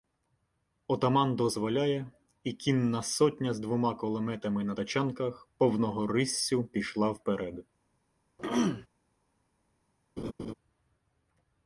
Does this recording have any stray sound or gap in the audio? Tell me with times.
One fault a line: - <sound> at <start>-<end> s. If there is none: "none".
- throat clearing at 8.4-8.9 s
- laugh at 10.2-10.5 s